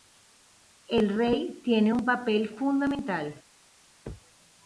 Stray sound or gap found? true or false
false